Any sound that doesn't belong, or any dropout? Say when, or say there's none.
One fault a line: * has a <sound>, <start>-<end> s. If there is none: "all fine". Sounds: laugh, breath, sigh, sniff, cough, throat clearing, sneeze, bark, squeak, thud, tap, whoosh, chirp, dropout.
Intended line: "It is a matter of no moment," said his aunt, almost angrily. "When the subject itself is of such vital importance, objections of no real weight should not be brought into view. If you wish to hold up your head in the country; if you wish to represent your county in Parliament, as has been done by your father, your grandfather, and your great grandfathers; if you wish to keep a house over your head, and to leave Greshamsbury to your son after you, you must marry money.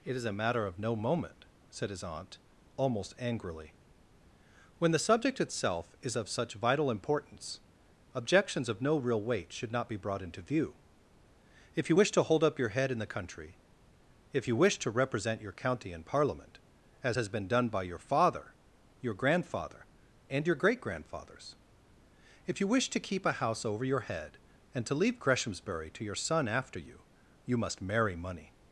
all fine